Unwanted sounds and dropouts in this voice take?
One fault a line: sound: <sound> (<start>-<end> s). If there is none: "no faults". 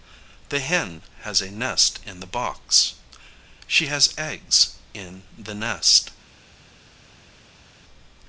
no faults